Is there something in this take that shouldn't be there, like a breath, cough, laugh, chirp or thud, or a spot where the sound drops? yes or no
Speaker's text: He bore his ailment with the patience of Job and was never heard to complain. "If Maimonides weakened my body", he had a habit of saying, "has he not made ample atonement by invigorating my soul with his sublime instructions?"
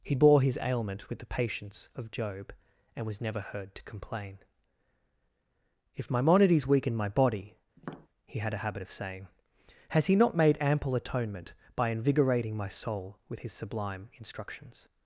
yes